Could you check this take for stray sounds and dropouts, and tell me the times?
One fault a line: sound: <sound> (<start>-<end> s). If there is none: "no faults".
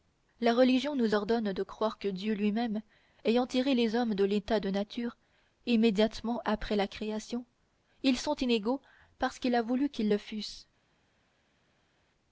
no faults